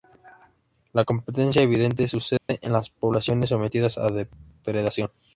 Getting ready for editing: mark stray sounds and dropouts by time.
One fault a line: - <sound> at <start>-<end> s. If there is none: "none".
- dropout at 2.4-2.5 s